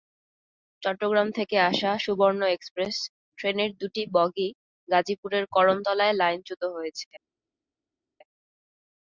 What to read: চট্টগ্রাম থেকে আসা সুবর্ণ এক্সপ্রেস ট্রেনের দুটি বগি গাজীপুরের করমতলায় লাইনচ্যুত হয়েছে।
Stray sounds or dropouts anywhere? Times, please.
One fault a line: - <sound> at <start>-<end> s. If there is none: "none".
none